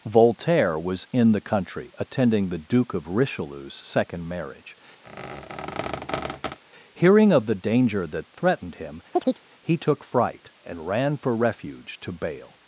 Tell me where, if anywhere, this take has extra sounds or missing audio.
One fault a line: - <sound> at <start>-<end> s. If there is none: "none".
- squeak at 5.0-6.6 s
- chirp at 9.1-9.4 s